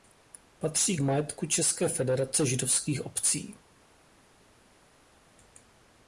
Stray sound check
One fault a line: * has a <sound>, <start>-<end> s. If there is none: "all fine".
all fine